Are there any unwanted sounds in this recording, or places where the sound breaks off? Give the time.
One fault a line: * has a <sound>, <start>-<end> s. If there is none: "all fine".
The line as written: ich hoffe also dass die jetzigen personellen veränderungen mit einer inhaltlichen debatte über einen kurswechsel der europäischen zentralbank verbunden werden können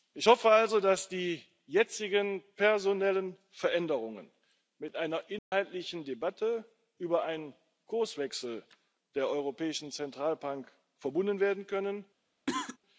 * has a dropout, 5.4-5.5 s
* has a cough, 12.5-12.8 s